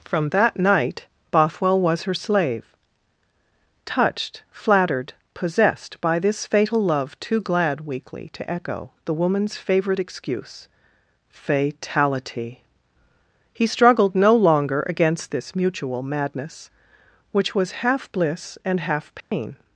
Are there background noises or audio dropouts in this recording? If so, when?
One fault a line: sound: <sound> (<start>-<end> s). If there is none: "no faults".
sound: dropout (19.2-19.3 s)